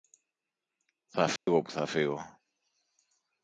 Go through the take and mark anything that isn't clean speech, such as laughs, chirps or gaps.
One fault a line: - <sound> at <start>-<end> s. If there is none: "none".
- dropout at 1.4-1.5 s